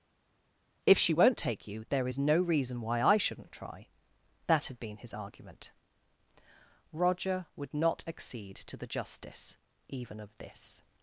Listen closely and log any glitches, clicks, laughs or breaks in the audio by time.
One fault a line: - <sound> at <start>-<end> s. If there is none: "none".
none